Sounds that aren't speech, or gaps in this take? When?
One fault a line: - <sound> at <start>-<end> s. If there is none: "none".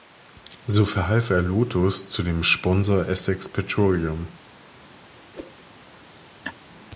- whoosh at 5.3-5.6 s
- laugh at 6.4-6.5 s